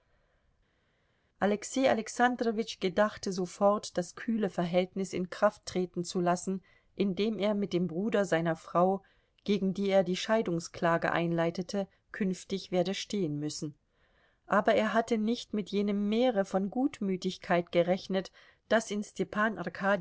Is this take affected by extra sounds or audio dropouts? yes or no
no